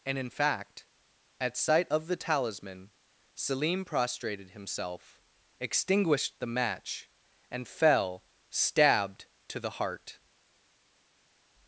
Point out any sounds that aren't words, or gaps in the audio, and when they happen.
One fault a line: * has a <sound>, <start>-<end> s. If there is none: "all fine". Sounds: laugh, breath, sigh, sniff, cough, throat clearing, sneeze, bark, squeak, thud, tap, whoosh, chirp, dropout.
all fine